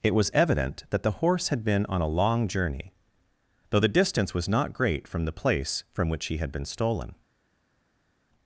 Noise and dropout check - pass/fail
pass